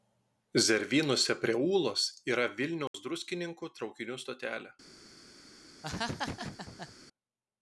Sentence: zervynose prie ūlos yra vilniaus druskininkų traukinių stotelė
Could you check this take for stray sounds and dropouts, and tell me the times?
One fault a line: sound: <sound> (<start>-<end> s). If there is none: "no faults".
sound: dropout (2.9-2.9 s)
sound: laugh (5.8-7.0 s)